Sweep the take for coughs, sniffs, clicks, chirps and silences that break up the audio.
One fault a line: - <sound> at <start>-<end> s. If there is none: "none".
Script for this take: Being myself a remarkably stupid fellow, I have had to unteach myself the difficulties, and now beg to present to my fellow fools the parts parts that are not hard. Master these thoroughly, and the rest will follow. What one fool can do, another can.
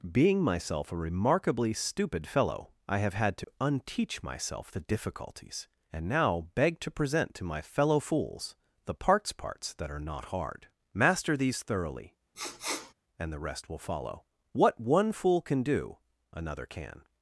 - dropout at 3.4-3.5 s
- sniff at 12.3-12.9 s